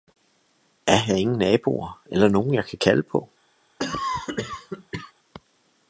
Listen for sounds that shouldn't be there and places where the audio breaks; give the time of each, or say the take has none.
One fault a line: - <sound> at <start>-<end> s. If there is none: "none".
- cough at 3.8-5.1 s